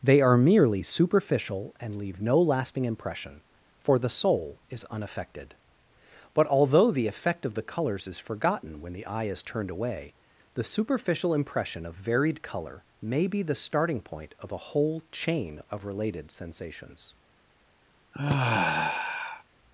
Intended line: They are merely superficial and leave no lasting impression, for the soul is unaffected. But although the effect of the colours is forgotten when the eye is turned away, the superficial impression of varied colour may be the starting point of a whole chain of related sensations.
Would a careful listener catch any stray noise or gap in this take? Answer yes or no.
yes